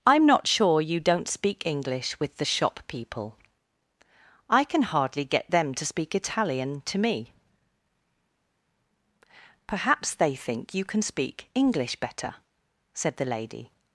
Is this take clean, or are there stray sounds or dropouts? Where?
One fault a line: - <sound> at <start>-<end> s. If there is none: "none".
none